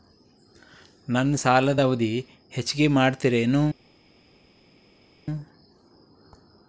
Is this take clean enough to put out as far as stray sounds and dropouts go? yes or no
yes